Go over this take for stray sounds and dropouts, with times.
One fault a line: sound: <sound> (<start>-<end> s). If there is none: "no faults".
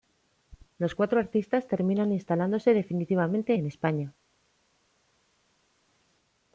no faults